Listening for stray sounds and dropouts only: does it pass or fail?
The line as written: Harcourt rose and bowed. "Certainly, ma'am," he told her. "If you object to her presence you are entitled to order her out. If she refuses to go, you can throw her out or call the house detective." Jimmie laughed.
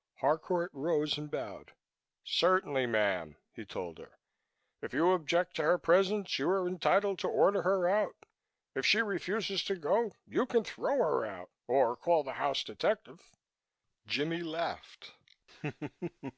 pass